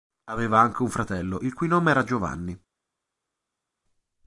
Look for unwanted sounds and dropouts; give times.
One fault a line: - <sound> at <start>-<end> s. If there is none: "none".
none